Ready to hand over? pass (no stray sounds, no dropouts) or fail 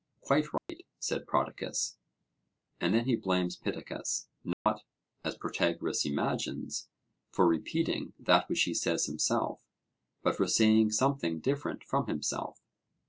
fail